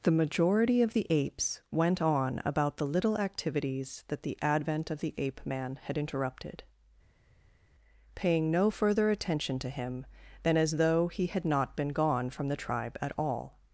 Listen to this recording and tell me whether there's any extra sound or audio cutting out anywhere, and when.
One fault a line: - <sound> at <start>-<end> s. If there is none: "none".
none